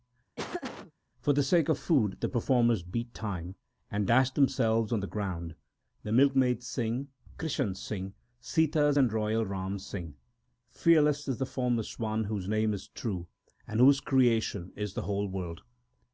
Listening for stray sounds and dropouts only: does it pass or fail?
fail